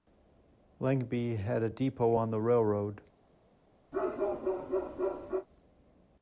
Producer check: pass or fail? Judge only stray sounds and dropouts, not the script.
fail